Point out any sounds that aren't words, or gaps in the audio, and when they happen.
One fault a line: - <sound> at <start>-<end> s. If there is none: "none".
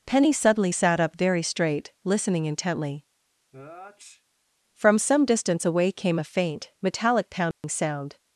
- sneeze at 3.5-4.2 s
- dropout at 7.5-7.6 s